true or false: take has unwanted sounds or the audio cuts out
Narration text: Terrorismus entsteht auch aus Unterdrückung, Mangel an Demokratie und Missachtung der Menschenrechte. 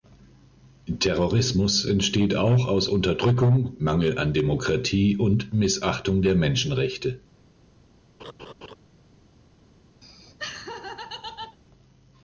true